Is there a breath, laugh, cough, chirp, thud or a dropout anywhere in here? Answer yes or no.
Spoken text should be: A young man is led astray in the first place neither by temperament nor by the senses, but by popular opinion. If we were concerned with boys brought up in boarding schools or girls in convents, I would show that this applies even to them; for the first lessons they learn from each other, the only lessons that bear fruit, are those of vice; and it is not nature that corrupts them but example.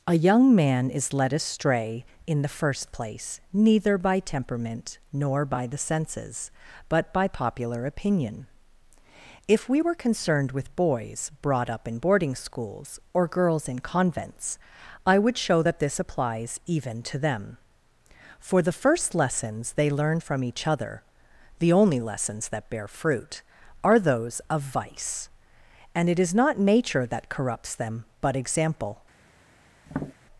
yes